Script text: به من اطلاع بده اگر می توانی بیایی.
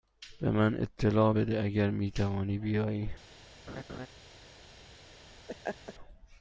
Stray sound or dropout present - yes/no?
yes